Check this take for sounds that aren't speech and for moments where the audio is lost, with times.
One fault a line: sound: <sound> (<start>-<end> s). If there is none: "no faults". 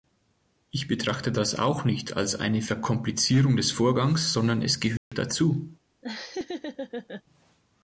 sound: dropout (5.0-5.1 s)
sound: laugh (6.0-7.2 s)